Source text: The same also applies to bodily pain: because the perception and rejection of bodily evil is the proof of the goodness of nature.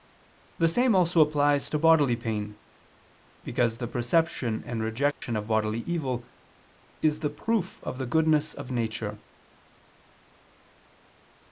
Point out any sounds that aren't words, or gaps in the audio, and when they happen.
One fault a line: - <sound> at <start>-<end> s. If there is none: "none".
- dropout at 5.1-5.2 s